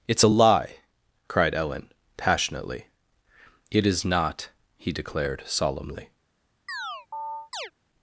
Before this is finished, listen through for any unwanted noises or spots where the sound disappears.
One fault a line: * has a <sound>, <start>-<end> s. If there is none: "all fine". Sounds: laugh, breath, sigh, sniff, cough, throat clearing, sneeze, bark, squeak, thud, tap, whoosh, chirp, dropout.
* has a chirp, 6.7-7.7 s